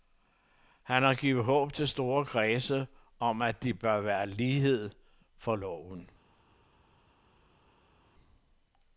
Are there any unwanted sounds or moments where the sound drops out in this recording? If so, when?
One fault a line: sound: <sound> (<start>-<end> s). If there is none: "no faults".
no faults